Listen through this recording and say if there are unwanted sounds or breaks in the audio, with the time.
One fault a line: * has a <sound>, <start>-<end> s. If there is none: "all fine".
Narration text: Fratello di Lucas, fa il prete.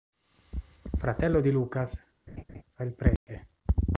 * has a laugh, 2.3-2.6 s
* has a dropout, 3.2-3.3 s